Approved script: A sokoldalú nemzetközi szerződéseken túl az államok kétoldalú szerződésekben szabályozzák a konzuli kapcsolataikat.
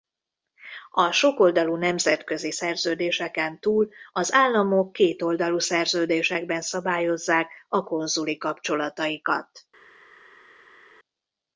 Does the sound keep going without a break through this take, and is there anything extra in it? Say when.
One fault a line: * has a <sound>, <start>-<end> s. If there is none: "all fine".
all fine